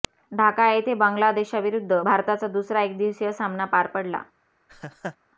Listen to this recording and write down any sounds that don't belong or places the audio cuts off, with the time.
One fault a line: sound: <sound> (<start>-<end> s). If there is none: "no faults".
sound: laugh (4.7-5.2 s)